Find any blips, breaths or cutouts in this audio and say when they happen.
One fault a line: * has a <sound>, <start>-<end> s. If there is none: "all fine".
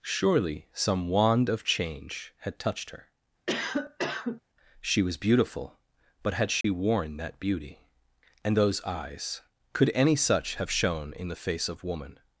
* has a cough, 3.5-4.4 s
* has a dropout, 6.6-6.6 s